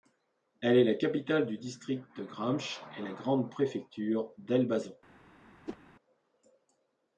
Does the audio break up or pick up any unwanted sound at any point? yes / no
yes